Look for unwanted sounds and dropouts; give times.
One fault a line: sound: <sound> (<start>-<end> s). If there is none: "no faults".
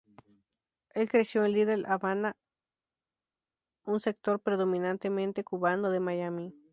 no faults